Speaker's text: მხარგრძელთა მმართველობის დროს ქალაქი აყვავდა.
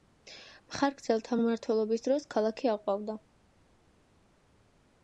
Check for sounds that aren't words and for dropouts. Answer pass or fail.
pass